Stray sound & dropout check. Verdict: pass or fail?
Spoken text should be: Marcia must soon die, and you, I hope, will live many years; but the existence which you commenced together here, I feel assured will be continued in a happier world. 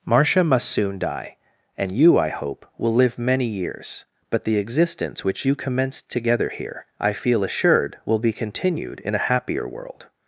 pass